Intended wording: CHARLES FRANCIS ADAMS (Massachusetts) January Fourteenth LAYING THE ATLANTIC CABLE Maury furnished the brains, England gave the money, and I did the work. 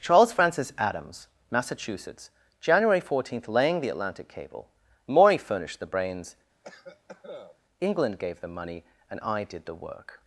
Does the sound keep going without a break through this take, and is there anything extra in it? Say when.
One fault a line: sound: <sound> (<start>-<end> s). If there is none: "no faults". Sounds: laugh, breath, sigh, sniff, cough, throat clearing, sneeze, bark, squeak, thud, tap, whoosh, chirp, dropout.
sound: cough (6.6-7.6 s)